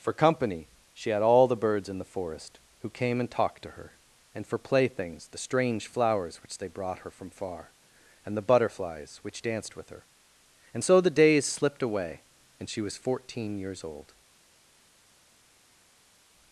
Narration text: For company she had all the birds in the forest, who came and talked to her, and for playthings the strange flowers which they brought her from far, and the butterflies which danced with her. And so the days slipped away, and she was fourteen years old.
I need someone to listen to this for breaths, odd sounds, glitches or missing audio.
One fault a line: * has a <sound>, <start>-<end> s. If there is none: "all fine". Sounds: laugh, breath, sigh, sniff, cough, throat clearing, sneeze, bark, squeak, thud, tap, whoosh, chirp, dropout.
all fine